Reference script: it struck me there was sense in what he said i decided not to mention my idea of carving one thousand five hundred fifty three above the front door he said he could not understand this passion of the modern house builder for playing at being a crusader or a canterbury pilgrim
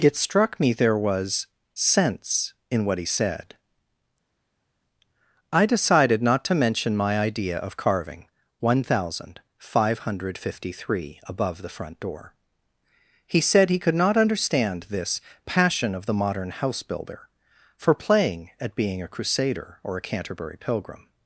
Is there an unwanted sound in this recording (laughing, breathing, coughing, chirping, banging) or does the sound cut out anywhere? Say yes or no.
no